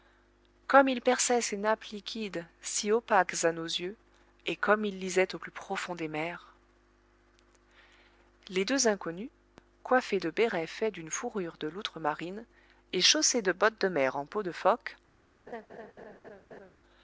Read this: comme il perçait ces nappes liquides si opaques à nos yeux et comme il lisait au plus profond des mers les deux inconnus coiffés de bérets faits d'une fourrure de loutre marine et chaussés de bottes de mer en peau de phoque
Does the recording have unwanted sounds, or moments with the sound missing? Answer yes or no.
yes